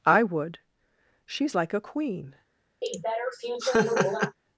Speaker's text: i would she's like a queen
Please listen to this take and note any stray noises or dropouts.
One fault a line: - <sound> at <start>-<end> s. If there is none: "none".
- laugh at 2.8-4.4 s